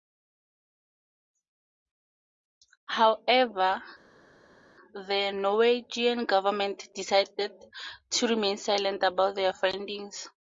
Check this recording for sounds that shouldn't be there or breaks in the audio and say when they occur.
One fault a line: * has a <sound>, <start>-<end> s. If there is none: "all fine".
all fine